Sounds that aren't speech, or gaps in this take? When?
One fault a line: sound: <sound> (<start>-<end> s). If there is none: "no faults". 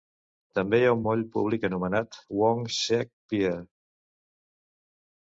no faults